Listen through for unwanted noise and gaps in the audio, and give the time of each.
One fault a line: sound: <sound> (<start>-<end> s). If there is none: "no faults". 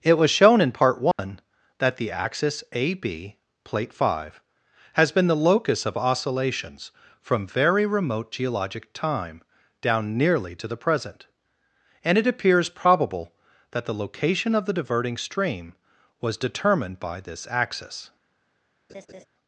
sound: dropout (1.1-1.2 s)
sound: laugh (18.9-19.3 s)